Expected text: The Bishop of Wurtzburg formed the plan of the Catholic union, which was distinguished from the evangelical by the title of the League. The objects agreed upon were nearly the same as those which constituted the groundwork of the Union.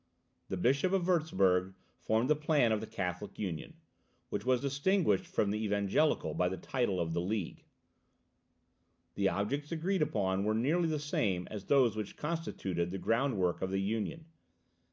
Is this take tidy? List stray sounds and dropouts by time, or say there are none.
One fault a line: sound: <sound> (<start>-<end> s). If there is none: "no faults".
no faults